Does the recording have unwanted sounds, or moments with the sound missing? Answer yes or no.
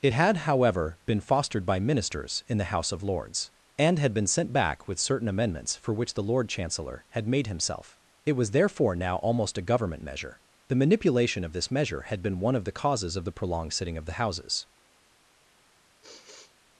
yes